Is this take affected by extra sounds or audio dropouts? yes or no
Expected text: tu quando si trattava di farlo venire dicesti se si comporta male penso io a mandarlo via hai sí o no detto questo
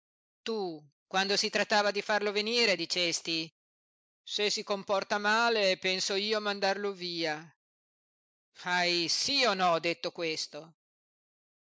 no